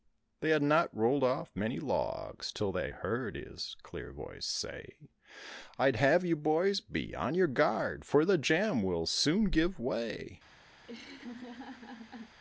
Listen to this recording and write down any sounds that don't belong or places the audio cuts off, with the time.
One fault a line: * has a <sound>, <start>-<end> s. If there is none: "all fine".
* has a laugh, 10.8-12.4 s